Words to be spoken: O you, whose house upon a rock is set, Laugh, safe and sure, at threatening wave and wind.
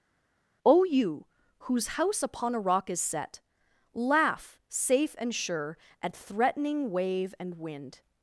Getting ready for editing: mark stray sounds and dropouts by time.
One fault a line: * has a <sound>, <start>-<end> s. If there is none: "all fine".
all fine